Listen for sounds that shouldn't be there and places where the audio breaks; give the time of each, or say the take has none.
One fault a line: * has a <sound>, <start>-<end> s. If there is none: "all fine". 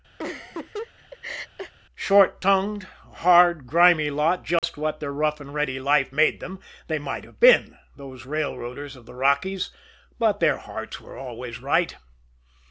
* has a laugh, 0.2-1.7 s
* has a dropout, 4.6-4.6 s